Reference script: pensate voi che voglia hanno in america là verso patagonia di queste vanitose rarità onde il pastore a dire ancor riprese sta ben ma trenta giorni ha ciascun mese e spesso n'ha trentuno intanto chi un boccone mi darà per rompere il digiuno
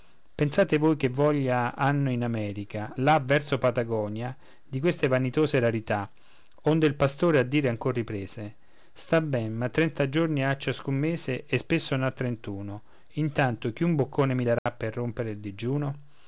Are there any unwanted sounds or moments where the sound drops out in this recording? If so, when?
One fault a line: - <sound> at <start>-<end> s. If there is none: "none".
- dropout at 14.6-14.7 s